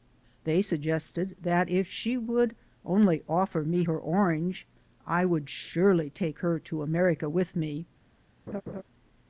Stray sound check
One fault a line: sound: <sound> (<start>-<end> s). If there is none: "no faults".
sound: laugh (8.5-8.8 s)